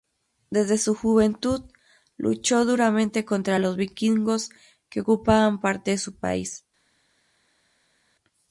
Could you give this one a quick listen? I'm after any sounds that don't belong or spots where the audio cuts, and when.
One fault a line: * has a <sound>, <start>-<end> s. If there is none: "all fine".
all fine